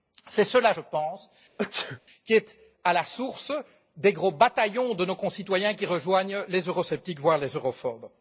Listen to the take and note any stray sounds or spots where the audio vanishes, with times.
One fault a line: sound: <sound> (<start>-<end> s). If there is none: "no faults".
sound: sneeze (1.6-2.0 s)